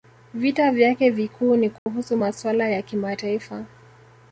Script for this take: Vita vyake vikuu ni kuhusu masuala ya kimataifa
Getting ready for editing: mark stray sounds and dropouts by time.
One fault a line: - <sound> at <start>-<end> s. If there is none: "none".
- dropout at 1.8-1.9 s